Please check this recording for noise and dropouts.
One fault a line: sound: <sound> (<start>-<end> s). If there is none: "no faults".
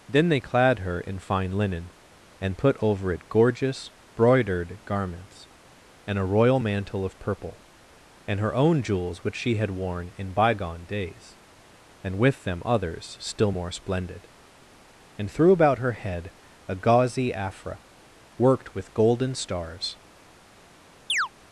sound: chirp (21.1-21.3 s)